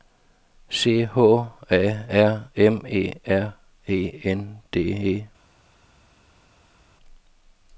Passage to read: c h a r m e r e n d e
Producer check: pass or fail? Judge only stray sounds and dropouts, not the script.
pass